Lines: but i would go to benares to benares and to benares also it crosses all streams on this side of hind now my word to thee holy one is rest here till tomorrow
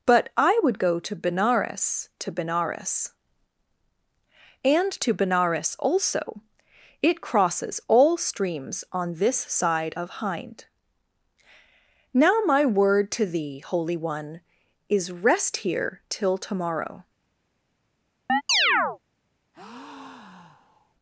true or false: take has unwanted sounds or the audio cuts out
true